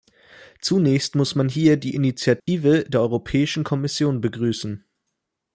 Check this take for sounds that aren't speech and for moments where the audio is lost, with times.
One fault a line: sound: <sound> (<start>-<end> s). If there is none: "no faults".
sound: dropout (2.4-2.5 s)